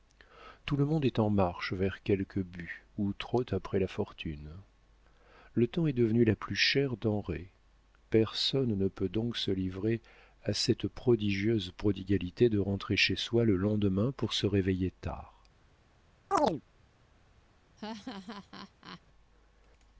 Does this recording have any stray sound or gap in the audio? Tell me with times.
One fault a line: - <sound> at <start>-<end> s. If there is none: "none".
- chirp at 16.3-16.6 s
- laugh at 17.8-19.0 s